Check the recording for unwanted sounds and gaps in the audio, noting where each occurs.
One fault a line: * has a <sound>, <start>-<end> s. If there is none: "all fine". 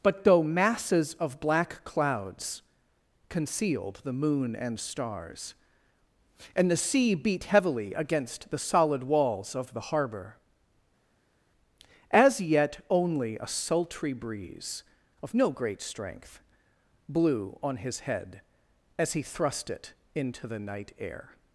all fine